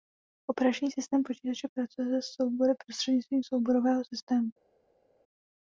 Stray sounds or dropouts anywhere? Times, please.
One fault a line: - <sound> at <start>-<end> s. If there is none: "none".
none